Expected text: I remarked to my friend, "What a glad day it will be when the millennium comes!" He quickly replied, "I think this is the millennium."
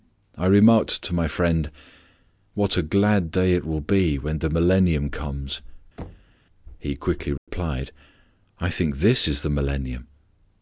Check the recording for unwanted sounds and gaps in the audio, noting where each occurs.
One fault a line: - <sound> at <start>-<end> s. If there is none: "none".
- thud at 6.0-6.4 s
- dropout at 7.4-7.5 s